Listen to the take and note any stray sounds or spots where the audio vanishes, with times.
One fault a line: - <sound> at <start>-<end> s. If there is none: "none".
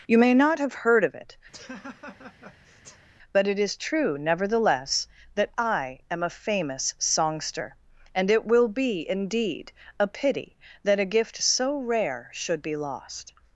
- laugh at 1.5-3.1 s